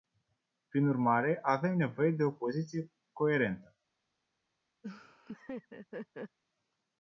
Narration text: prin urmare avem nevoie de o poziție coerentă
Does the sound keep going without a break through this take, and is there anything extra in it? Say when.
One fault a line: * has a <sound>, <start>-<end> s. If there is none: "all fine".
* has a laugh, 4.8-6.4 s